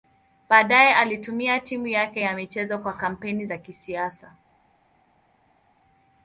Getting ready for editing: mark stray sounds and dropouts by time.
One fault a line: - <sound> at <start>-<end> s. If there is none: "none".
none